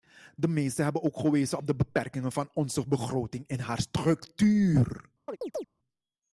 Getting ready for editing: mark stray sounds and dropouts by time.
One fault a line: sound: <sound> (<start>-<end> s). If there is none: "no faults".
sound: chirp (5.3-5.7 s)